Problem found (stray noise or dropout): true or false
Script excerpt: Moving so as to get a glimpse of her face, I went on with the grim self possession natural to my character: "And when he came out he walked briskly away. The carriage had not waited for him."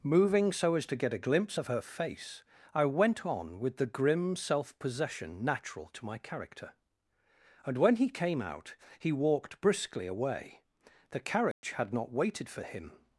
true